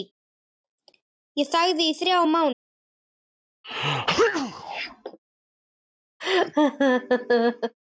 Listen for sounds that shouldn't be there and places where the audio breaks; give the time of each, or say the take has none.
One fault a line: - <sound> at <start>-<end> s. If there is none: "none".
- sneeze at 3.6-5.2 s
- laugh at 6.2-7.7 s